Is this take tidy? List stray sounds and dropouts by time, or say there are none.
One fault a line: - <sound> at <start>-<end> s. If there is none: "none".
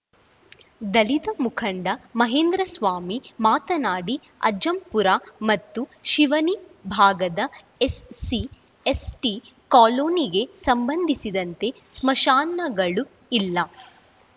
none